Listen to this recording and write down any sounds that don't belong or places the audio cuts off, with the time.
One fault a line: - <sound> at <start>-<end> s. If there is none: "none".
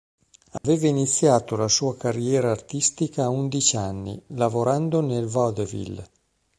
- dropout at 0.6-0.6 s